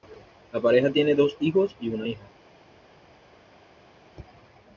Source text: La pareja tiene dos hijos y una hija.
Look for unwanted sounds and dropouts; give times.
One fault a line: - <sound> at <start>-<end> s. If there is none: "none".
none